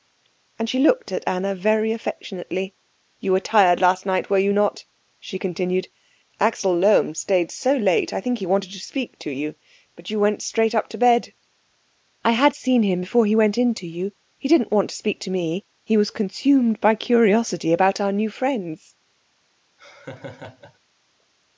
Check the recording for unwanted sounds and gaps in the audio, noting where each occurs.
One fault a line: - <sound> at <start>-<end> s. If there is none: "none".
- laugh at 19.8-20.8 s